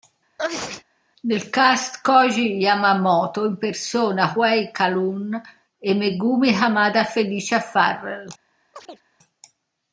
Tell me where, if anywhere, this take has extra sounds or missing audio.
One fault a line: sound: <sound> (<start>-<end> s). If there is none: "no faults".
sound: sneeze (0.4-0.8 s)
sound: chirp (8.7-9.0 s)